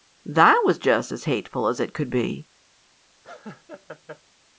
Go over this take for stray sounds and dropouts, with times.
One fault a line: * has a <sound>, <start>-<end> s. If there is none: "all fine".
* has a laugh, 3.2-4.2 s